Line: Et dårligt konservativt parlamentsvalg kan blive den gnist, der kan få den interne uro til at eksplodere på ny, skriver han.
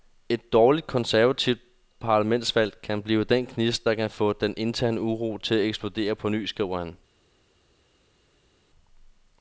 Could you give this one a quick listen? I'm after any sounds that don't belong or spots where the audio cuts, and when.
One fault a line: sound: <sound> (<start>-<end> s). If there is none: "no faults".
no faults